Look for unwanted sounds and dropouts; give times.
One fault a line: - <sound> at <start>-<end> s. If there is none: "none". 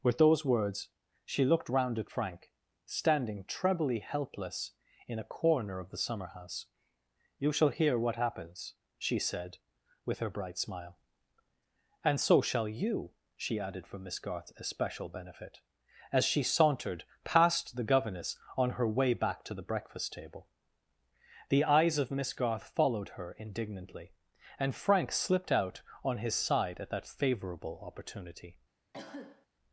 - cough at 28.9-29.5 s